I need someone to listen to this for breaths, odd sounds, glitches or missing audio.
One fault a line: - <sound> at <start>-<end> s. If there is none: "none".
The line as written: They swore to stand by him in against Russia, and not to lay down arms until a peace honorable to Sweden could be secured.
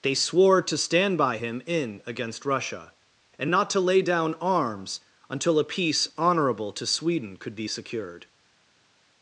none